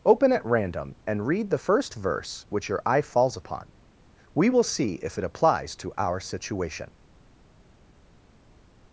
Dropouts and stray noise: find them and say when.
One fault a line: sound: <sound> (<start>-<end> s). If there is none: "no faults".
no faults